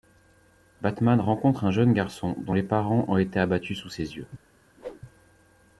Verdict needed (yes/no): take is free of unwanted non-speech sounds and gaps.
no